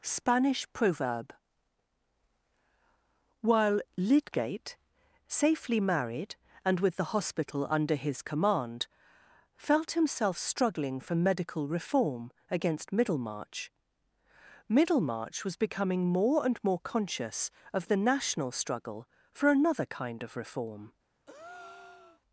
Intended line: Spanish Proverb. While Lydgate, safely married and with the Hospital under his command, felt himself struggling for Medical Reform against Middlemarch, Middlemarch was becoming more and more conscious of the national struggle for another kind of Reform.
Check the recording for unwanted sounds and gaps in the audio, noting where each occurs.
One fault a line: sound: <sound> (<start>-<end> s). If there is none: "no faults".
sound: breath (21.3-22.2 s)